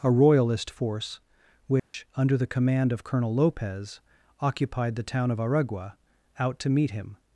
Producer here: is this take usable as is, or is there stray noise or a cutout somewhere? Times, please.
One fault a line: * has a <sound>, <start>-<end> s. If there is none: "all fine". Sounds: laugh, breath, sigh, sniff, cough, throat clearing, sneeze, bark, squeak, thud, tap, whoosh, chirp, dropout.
* has a dropout, 1.8-1.9 s